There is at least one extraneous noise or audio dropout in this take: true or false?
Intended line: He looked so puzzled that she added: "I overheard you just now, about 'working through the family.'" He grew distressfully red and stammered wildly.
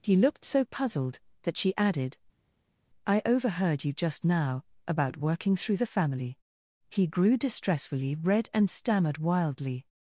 false